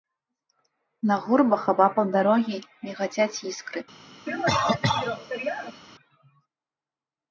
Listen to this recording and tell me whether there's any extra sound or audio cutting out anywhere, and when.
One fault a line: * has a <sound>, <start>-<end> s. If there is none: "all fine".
* has a cough, 4.3-5.8 s